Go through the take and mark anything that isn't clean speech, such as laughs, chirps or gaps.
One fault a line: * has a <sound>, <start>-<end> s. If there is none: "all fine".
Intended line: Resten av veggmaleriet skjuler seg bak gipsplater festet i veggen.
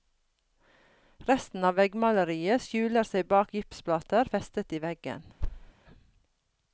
* has a thud, 5.4-5.7 s